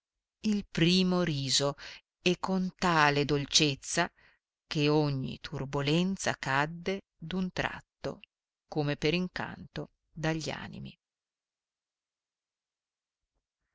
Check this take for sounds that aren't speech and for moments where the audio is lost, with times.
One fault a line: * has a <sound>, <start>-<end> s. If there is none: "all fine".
all fine